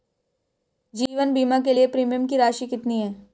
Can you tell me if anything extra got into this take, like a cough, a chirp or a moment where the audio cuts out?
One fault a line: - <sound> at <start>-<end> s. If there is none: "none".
none